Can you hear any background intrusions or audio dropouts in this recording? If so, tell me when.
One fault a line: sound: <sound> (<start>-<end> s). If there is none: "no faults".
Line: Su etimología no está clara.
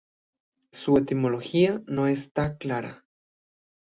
no faults